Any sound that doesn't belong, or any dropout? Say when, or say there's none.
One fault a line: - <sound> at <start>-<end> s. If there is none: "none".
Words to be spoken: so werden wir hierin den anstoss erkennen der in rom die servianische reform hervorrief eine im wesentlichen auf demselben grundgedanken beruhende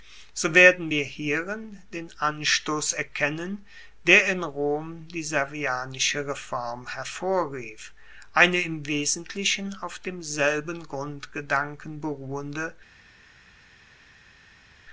none